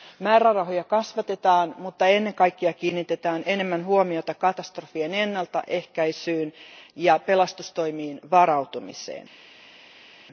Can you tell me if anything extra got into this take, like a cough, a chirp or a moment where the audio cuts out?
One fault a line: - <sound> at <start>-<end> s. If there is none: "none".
none